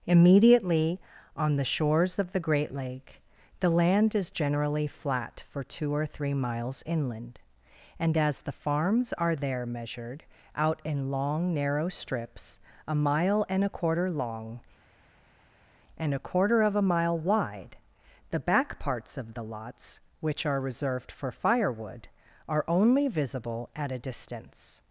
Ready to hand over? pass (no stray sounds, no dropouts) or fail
pass